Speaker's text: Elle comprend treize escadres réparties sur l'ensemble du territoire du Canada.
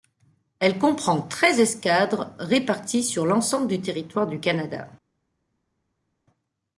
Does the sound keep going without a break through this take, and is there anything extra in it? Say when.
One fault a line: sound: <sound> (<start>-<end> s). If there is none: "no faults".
no faults